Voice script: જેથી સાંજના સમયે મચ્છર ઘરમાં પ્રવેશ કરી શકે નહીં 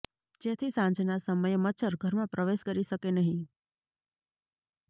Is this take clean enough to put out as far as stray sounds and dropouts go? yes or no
yes